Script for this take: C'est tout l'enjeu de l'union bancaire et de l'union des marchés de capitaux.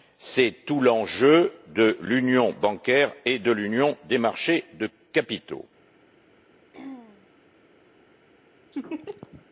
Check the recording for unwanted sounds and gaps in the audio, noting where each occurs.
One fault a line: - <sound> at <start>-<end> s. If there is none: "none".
- throat clearing at 6.7-7.3 s
- laugh at 8.7-9.5 s